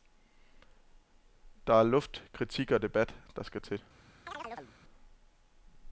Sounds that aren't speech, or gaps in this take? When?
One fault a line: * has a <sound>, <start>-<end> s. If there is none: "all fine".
* has a chirp, 4.3-4.7 s